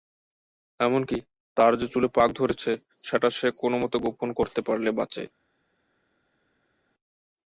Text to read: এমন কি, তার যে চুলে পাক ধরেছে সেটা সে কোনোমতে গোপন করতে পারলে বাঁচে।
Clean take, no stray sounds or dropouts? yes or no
yes